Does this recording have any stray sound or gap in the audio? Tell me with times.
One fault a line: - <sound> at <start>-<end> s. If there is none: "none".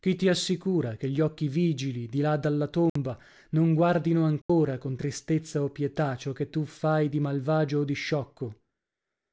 - dropout at 2.9-3.0 s
- dropout at 4.4-4.5 s